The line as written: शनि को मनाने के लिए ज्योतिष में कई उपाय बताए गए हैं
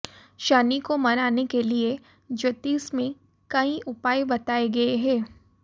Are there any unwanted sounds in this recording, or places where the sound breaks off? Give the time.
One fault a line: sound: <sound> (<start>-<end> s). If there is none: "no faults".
no faults